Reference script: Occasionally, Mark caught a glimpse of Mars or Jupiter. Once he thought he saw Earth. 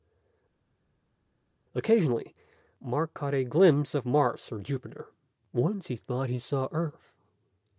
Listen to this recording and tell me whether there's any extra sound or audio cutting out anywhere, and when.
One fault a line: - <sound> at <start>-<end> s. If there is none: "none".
none